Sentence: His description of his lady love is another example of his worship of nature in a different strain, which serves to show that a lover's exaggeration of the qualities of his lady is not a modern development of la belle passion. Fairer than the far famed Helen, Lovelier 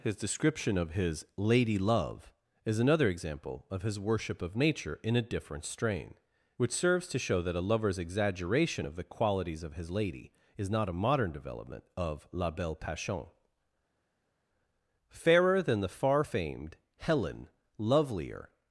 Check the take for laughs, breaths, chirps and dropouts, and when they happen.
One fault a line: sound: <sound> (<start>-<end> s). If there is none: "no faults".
no faults